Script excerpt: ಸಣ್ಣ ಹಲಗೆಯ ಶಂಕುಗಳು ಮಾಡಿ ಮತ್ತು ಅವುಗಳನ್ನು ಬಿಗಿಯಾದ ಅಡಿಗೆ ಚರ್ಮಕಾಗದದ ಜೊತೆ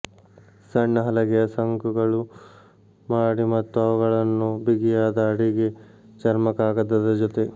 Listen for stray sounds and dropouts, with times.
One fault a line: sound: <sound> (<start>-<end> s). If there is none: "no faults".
no faults